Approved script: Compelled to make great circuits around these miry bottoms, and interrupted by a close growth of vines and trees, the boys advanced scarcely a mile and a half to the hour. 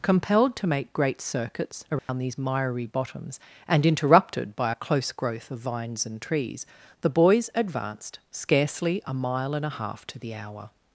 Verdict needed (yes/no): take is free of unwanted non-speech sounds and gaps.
no